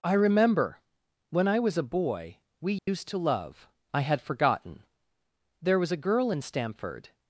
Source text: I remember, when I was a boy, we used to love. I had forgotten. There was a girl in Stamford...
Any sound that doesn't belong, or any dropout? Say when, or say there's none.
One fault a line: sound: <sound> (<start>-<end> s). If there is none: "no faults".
sound: dropout (2.8-2.9 s)